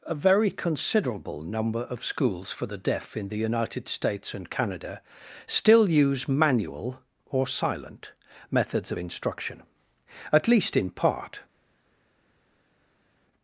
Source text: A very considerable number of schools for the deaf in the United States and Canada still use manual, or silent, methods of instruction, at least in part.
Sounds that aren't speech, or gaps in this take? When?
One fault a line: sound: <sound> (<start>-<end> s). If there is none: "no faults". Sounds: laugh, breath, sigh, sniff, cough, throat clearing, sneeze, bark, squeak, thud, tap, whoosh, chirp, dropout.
no faults